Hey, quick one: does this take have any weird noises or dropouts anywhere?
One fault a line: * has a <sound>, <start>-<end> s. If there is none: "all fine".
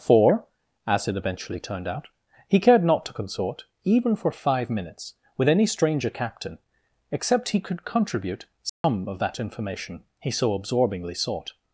* has a dropout, 8.7-8.8 s